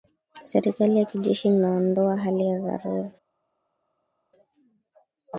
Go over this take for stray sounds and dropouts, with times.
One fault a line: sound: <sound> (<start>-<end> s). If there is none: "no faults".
no faults